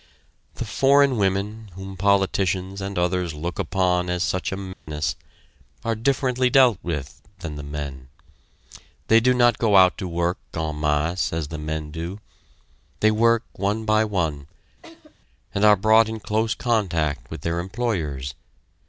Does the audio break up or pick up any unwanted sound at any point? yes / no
yes